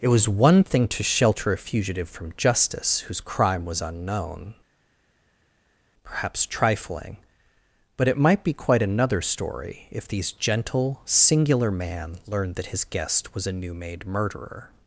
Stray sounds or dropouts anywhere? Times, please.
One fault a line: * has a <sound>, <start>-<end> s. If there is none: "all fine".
all fine